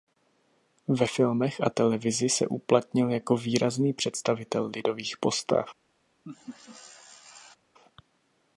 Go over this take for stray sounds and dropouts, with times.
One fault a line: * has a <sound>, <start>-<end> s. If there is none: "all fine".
* has a laugh, 6.2-7.6 s